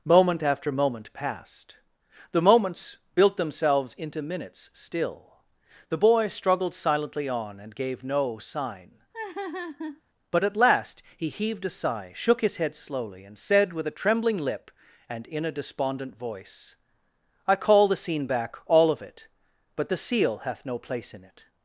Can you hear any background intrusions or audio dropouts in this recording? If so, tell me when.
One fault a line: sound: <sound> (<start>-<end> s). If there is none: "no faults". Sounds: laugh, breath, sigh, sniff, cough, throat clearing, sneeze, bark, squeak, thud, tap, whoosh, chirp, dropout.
sound: laugh (9.1-10.0 s)